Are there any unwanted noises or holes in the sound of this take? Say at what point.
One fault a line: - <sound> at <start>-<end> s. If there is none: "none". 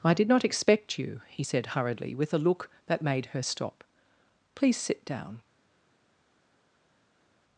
none